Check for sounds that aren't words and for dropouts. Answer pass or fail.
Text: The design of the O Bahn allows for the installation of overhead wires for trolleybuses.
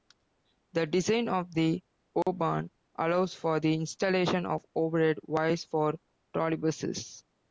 fail